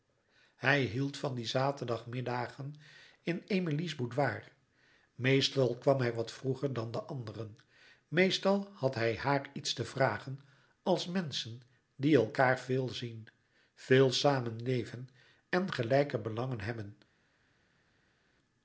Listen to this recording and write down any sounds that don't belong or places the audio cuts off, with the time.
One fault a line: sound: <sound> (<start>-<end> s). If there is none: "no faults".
no faults